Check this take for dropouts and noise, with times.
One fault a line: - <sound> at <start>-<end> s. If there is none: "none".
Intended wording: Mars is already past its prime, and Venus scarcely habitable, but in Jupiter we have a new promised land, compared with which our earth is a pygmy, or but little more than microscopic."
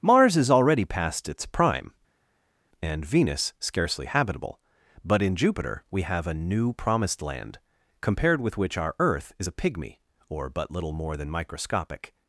none